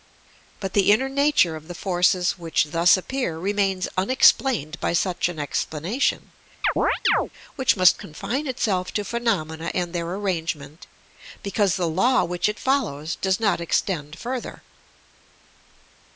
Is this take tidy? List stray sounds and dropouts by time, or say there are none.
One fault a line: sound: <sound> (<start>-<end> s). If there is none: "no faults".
sound: chirp (6.6-7.3 s)